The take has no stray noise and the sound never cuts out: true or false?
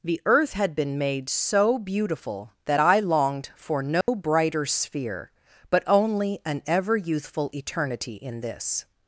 false